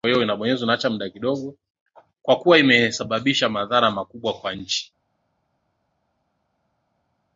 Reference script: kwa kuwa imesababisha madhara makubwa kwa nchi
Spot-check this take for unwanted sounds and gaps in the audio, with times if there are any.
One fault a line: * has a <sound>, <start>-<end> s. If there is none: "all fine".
all fine